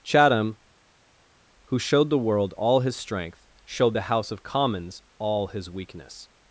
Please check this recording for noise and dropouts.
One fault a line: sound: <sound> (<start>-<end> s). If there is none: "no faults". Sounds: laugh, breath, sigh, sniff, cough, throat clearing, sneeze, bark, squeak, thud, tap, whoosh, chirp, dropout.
no faults